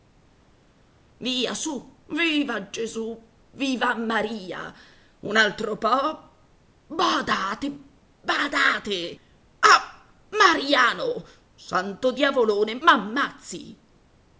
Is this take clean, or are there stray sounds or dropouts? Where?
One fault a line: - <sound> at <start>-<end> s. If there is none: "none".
none